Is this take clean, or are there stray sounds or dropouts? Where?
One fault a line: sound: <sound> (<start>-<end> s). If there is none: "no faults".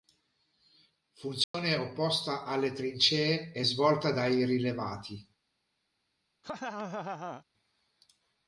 sound: dropout (1.4-1.5 s)
sound: laugh (6.4-7.4 s)